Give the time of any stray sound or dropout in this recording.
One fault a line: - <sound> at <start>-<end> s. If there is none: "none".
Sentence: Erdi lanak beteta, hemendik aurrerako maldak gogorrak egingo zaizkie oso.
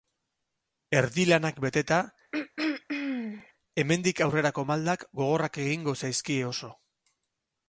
- throat clearing at 2.3-3.5 s